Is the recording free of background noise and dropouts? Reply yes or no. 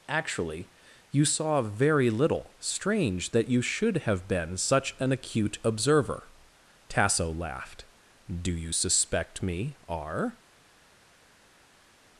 yes